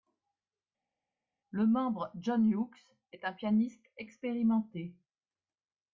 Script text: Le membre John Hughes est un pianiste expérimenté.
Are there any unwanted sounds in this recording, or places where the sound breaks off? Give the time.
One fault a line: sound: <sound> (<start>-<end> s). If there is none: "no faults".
no faults